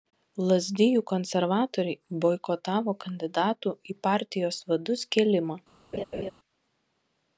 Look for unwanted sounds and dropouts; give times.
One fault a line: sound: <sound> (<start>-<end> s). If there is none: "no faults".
sound: laugh (5.9-6.3 s)